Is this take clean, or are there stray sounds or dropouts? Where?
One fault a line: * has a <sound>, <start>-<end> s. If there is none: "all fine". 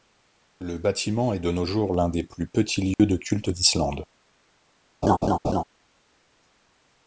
* has a dropout, 2.9-3.0 s
* has a laugh, 5.0-5.6 s